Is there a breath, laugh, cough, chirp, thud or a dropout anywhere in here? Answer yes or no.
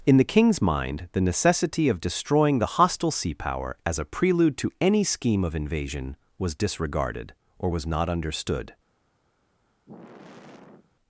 yes